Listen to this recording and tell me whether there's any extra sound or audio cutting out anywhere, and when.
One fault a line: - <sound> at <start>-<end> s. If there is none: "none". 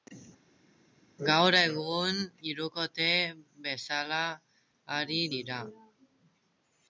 none